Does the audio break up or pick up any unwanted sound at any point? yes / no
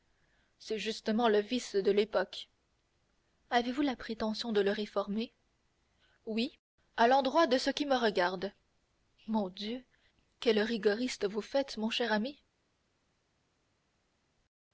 no